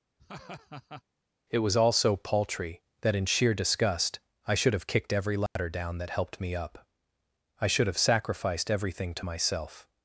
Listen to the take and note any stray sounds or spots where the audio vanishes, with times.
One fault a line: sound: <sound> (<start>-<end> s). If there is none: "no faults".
sound: laugh (0.2-1.0 s)
sound: dropout (5.5-5.6 s)